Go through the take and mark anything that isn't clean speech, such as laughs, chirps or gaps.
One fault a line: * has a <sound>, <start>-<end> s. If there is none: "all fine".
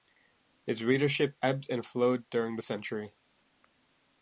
all fine